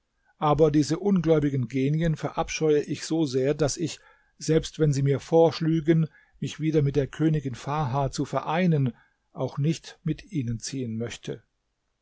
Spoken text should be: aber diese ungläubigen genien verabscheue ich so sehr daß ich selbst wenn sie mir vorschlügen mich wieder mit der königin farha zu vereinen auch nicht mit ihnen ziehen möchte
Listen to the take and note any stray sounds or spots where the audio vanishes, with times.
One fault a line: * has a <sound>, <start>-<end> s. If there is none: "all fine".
all fine